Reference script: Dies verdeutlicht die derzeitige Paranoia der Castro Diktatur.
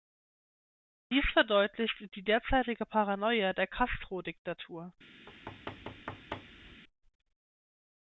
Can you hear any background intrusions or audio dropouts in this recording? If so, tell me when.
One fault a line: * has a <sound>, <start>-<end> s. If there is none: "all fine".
* has a thud, 5.3-6.8 s